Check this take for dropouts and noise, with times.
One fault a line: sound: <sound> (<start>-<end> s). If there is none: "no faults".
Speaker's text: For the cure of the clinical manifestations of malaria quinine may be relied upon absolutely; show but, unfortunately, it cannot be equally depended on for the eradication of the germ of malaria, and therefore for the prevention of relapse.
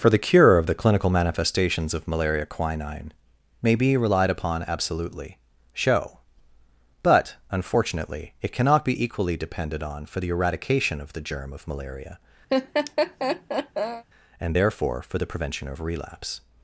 sound: laugh (12.5-14.0 s)